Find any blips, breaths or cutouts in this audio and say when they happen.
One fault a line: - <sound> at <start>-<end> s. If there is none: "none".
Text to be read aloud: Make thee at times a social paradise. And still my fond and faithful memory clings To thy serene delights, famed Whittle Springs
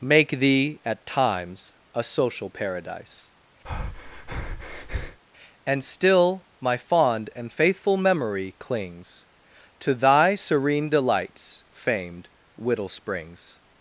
- breath at 3.6-5.2 s